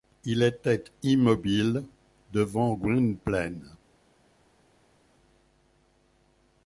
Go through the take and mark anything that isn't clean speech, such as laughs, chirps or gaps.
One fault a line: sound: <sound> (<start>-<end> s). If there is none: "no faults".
no faults